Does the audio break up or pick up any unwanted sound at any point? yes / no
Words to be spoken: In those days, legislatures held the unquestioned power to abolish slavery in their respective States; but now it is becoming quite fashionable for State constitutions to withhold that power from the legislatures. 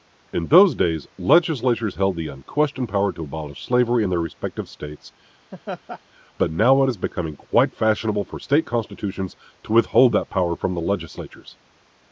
yes